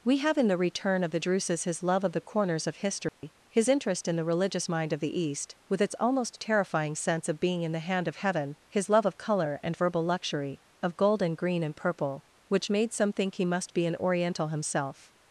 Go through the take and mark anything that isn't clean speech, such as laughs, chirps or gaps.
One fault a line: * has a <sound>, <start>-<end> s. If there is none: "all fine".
* has a dropout, 3.1-3.2 s